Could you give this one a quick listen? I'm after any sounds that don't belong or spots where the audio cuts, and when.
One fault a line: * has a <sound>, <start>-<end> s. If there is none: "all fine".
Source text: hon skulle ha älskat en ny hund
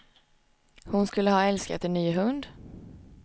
all fine